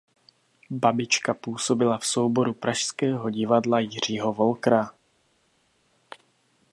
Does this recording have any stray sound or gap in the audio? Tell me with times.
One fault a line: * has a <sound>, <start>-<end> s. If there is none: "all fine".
all fine